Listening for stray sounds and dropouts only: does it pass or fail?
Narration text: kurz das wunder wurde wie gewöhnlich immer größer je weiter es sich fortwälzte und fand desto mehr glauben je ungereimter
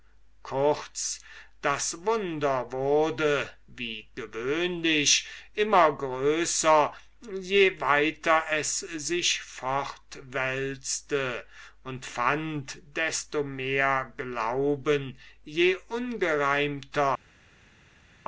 pass